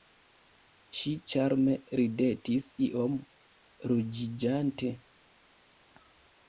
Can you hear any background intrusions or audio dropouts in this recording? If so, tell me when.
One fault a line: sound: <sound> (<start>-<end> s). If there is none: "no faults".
no faults